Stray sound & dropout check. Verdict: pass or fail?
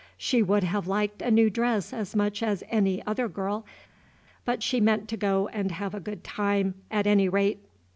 pass